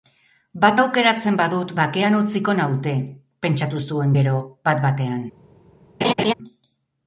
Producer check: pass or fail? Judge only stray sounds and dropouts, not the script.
fail